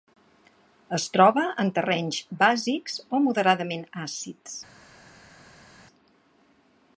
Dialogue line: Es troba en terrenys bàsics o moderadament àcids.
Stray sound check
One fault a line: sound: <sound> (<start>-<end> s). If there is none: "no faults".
no faults